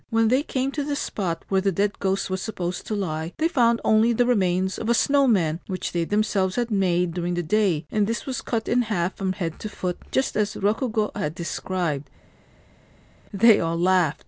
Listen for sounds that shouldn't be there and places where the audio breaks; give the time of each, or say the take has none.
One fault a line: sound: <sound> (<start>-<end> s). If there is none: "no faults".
no faults